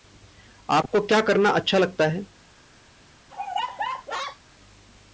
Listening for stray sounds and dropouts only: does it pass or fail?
fail